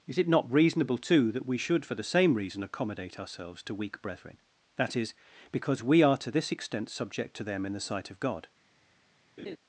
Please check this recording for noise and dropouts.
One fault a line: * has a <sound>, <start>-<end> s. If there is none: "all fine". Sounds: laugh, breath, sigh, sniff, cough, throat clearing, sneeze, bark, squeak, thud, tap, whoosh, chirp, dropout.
* has a laugh, 9.4-9.6 s